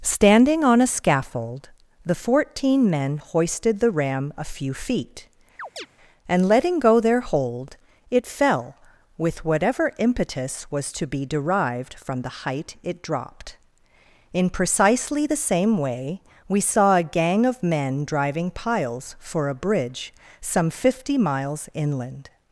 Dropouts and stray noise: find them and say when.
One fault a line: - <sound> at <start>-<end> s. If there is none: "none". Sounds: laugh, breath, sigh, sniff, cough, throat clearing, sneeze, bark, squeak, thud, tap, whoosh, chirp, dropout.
- chirp at 5.6-5.9 s